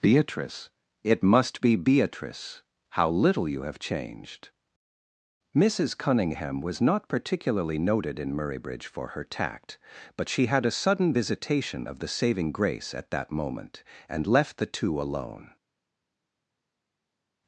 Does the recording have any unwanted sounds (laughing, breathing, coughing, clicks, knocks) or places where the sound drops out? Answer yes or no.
no